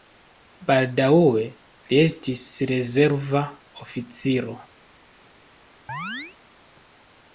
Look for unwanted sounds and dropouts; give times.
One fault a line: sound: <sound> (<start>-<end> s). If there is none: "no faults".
sound: chirp (5.9-6.4 s)